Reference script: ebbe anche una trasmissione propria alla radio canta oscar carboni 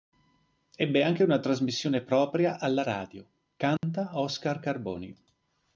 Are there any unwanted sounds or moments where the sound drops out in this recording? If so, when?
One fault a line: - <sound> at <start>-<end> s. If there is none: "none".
- dropout at 3.8-3.8 s